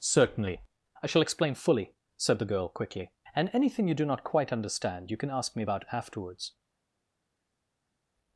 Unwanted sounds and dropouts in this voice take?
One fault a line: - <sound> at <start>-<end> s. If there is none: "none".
none